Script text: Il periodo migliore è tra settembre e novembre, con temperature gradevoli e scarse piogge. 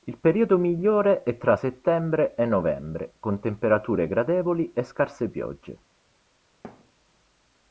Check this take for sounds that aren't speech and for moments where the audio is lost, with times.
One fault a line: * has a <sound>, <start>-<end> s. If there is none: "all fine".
* has a thud, 6.6-6.9 s